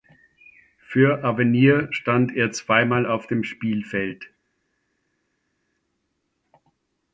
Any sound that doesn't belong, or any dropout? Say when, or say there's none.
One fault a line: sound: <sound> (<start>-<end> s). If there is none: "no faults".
no faults